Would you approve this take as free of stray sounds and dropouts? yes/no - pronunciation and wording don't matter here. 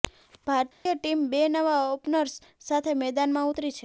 no